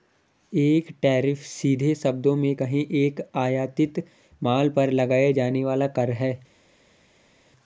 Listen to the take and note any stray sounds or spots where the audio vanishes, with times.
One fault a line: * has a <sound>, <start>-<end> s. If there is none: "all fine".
all fine